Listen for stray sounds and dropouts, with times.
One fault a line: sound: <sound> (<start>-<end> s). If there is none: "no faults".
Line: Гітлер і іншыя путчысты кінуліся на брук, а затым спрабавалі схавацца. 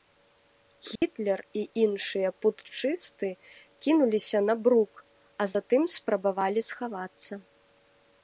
sound: dropout (1.0-1.0 s)